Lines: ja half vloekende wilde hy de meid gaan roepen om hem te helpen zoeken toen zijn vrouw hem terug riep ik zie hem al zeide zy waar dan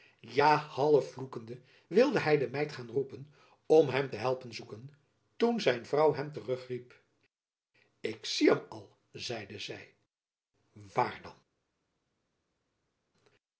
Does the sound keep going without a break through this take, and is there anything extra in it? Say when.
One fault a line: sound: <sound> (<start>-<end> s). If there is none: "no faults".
no faults